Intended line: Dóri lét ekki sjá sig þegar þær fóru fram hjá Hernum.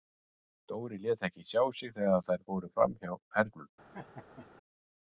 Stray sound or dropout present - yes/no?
yes